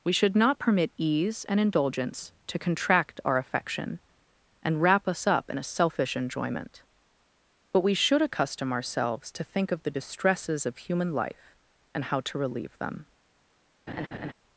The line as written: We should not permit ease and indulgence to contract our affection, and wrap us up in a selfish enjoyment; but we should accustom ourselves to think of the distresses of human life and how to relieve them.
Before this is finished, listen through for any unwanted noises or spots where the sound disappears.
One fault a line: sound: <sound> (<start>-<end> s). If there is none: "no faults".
sound: laugh (13.9-14.3 s)